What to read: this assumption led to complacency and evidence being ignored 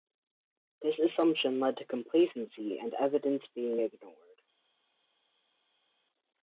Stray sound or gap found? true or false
false